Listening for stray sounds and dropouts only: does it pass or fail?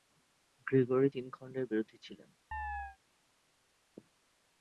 fail